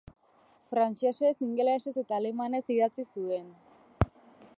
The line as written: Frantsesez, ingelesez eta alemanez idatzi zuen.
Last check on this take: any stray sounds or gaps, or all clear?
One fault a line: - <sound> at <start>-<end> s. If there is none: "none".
none